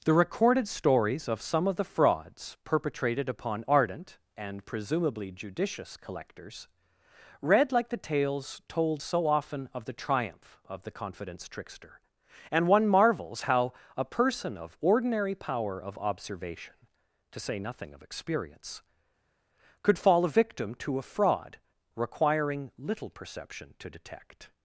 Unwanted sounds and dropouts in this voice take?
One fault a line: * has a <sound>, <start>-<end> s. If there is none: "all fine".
all fine